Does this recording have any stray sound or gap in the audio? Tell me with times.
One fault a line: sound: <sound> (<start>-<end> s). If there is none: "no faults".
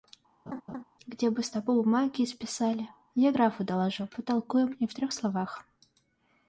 sound: laugh (0.5-0.8 s)